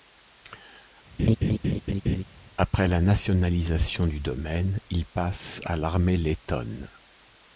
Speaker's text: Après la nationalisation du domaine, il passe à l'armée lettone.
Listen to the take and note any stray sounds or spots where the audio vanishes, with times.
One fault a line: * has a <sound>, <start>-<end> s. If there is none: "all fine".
* has a laugh, 1.2-2.2 s